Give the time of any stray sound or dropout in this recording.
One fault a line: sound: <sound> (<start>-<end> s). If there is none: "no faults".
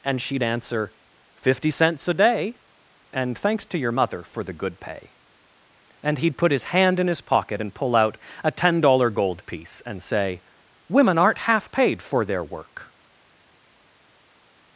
no faults